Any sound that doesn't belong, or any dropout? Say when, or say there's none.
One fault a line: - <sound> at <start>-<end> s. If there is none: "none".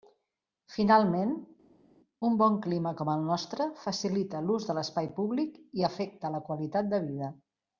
none